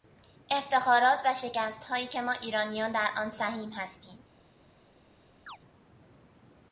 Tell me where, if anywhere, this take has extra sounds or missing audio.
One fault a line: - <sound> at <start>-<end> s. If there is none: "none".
- chirp at 5.5-5.6 s